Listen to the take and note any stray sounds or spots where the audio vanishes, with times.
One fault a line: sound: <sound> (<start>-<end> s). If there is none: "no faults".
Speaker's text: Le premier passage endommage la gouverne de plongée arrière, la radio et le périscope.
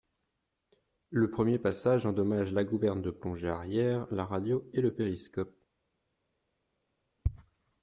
no faults